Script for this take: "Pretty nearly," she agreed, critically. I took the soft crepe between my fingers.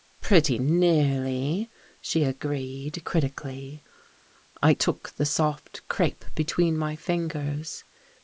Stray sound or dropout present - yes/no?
no